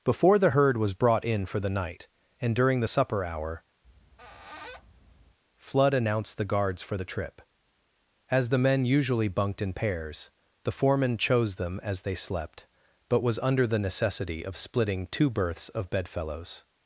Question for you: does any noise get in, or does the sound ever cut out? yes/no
yes